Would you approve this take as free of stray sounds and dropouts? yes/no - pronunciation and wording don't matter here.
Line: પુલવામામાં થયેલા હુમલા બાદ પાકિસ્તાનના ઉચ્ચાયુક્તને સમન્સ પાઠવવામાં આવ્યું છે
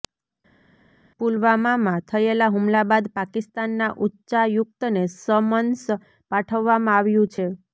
yes